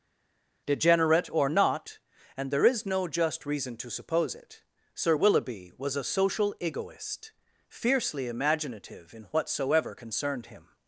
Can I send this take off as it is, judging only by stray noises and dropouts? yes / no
yes